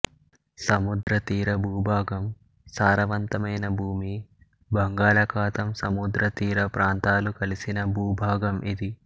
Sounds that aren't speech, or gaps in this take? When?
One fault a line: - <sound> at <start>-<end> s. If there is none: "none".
- dropout at 1.0-1.1 s